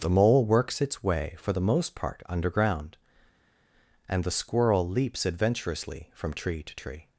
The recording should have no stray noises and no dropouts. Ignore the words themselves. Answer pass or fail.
pass